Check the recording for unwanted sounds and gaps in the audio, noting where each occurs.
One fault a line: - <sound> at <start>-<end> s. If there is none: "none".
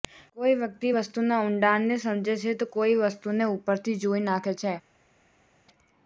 none